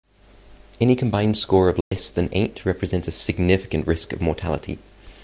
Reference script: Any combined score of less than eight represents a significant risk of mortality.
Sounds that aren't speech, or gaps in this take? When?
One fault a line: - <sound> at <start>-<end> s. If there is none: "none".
- dropout at 1.8-1.9 s